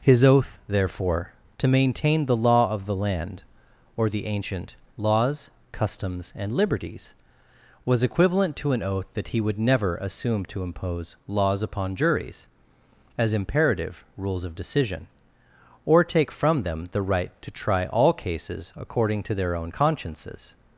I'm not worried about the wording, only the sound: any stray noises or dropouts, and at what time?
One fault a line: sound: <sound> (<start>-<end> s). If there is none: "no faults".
no faults